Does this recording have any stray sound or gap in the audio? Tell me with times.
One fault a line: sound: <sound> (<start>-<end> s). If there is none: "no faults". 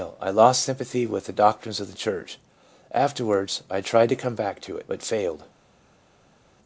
no faults